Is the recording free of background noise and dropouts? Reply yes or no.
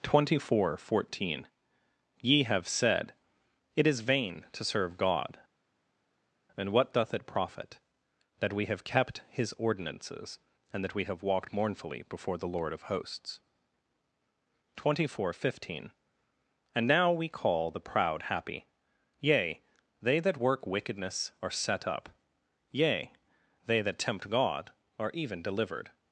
yes